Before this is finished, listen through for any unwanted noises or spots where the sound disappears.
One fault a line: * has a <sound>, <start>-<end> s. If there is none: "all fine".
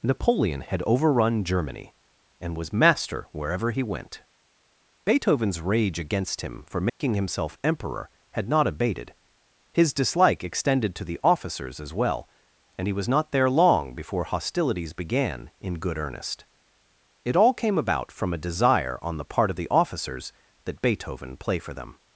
* has a dropout, 6.9-7.0 s